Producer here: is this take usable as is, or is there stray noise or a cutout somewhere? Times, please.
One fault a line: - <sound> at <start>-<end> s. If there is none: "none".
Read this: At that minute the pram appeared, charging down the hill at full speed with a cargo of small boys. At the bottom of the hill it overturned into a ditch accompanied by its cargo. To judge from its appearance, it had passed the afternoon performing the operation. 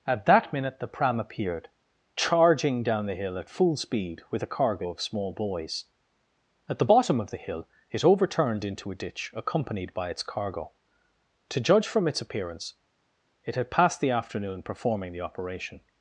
none